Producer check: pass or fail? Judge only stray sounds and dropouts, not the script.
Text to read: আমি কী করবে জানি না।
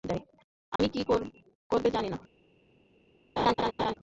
fail